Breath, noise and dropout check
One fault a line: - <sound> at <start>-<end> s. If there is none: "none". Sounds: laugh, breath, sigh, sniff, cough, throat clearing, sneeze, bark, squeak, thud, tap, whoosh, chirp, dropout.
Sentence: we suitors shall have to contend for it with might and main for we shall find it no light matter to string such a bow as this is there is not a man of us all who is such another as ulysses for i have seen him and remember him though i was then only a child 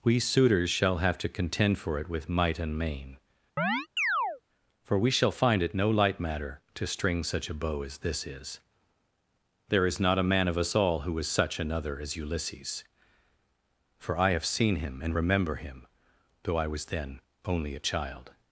- chirp at 3.6-4.4 s